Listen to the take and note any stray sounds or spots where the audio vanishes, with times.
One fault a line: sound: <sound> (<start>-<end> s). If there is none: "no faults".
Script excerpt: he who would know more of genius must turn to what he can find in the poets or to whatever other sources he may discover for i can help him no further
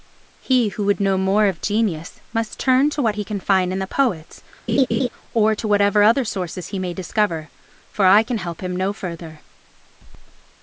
sound: laugh (4.7-5.1 s)